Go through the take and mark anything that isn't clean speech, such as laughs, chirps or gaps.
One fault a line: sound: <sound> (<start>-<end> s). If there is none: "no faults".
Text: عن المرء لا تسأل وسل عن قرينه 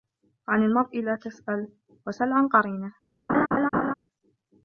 sound: laugh (3.3-3.9 s)